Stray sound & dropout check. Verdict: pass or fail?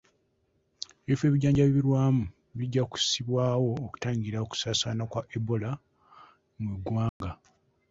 fail